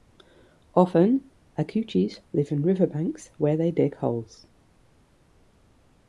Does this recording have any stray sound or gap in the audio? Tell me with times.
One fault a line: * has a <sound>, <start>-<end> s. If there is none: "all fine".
all fine